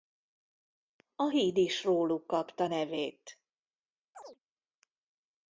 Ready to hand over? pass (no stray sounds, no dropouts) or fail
fail